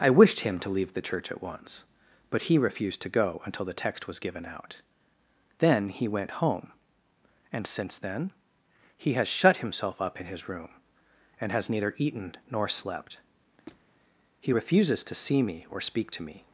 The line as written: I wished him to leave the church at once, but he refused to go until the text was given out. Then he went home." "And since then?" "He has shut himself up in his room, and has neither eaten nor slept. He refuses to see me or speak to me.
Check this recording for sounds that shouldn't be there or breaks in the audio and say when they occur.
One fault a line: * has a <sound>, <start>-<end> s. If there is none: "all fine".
* has a squeak, 13.7-13.9 s